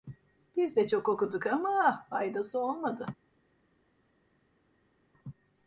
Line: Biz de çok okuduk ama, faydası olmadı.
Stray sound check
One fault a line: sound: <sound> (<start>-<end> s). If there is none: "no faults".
no faults